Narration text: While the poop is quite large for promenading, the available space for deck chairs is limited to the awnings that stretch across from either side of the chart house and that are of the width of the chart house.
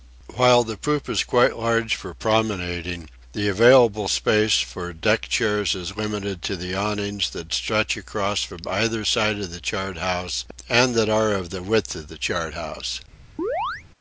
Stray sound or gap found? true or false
true